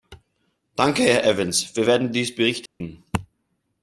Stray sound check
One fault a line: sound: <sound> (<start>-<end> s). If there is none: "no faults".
sound: dropout (2.7-2.8 s)